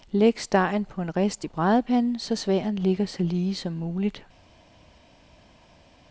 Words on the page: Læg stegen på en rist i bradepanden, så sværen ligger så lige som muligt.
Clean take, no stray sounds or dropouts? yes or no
yes